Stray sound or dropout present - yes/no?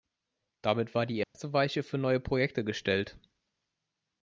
yes